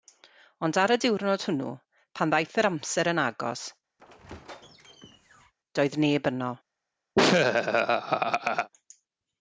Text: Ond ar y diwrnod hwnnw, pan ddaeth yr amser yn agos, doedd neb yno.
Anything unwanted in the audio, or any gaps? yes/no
yes